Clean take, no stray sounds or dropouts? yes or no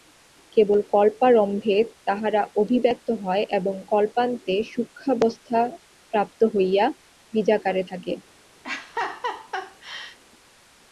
no